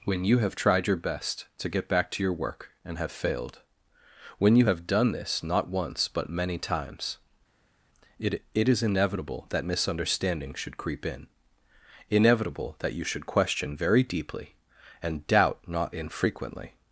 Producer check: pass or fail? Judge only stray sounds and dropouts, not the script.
pass